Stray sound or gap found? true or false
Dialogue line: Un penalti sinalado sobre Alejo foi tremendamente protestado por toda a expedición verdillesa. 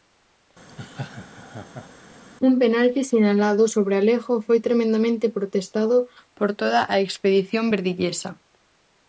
true